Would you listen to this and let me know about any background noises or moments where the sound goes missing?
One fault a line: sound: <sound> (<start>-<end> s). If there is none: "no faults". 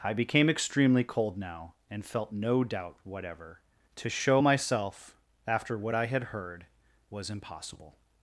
no faults